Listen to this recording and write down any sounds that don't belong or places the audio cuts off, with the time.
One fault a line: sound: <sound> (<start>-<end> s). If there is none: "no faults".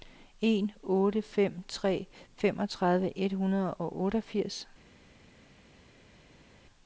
no faults